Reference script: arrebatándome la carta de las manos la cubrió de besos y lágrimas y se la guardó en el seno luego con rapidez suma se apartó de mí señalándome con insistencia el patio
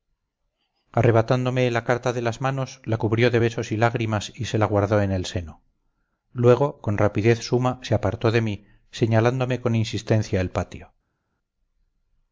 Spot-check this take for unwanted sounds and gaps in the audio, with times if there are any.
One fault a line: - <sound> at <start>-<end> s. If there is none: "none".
none